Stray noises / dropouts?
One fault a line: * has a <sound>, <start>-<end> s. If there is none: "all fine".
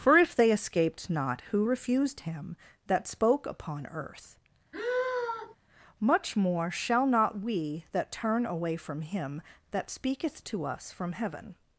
* has a sigh, 4.7-5.6 s